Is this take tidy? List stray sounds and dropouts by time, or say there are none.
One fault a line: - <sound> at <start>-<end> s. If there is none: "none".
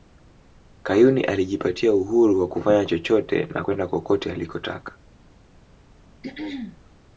- throat clearing at 6.2-6.8 s